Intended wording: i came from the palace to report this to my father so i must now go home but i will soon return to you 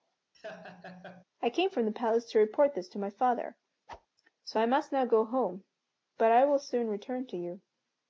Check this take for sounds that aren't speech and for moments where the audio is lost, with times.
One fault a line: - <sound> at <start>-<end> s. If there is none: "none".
- laugh at 0.3-1.2 s
- whoosh at 3.9-4.1 s